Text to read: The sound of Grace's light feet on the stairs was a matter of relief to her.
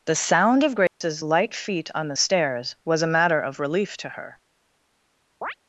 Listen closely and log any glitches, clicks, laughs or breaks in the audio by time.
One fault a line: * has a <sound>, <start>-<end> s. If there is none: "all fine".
* has a dropout, 0.9-1.0 s
* has a chirp, 5.4-5.5 s